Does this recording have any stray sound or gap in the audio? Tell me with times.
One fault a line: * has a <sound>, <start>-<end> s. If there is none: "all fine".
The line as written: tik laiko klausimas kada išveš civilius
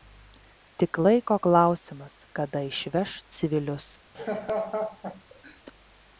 * has a laugh, 4.1-5.6 s